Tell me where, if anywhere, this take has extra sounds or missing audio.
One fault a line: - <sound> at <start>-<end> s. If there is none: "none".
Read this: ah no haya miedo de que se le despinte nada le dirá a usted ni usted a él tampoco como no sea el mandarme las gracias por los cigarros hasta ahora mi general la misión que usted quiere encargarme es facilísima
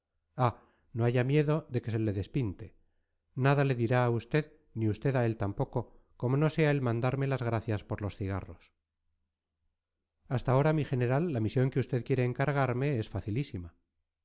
none